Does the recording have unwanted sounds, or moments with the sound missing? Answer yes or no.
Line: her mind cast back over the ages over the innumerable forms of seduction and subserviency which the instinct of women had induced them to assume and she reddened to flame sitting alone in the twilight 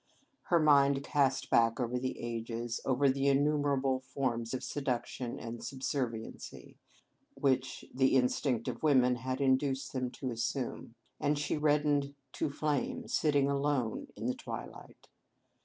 no